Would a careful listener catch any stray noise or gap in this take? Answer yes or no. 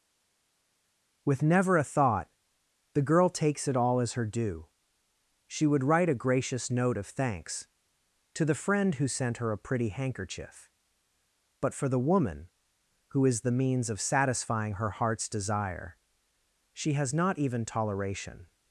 no